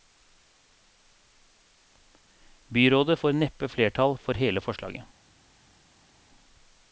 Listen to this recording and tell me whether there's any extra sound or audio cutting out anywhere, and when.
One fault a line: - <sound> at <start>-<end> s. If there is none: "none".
none